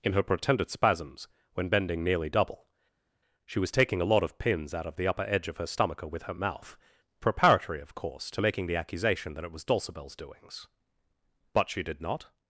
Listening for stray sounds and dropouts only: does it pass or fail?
pass